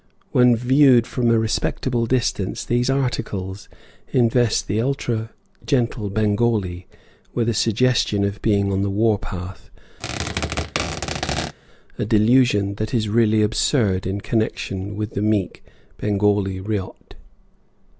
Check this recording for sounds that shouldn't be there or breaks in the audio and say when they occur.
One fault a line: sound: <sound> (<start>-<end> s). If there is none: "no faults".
sound: squeak (10.0-11.5 s)